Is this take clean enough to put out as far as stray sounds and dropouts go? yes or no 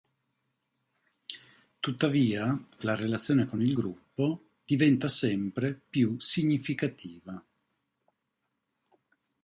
yes